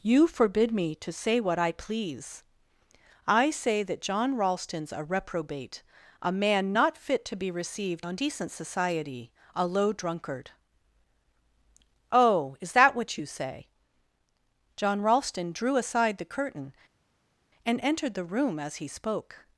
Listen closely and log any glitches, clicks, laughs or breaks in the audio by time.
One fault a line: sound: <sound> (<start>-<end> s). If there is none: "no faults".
no faults